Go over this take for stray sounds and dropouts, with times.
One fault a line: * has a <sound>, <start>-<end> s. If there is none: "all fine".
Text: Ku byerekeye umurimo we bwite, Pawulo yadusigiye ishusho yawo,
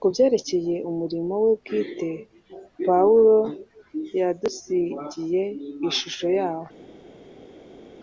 all fine